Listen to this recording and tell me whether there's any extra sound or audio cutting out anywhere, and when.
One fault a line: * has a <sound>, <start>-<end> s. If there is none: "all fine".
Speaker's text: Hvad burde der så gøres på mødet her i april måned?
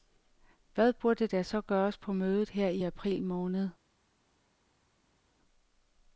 all fine